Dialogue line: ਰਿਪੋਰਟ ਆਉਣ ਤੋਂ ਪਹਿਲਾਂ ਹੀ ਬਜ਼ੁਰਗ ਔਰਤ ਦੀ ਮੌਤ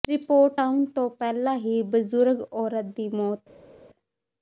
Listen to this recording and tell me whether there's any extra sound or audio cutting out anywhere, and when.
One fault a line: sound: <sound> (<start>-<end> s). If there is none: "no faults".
no faults